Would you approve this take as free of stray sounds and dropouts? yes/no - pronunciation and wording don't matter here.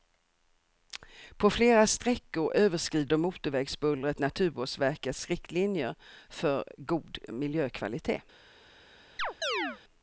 no